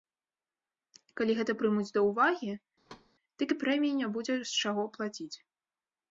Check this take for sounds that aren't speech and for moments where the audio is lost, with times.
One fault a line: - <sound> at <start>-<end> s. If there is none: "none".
- thud at 2.9-3.1 s